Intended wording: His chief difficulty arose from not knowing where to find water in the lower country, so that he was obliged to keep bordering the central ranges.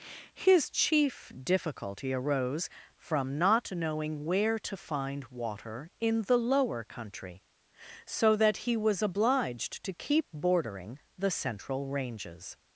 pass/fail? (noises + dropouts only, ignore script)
pass